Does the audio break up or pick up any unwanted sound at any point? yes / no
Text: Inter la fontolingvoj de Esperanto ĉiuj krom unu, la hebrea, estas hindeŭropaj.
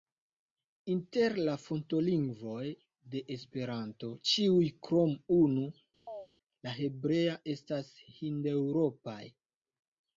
yes